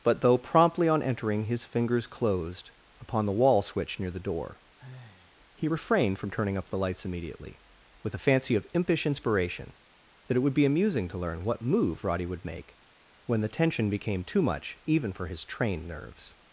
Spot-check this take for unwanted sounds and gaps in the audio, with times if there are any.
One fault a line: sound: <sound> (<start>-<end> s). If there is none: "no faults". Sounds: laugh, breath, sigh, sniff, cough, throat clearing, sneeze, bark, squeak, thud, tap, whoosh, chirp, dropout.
sound: sigh (4.8-5.4 s)